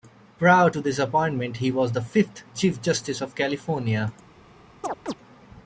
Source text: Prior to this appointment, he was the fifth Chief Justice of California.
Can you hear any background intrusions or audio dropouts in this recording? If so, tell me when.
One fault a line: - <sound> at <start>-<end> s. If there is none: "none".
- chirp at 4.8-5.1 s